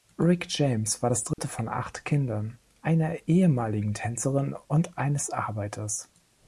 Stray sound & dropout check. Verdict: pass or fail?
fail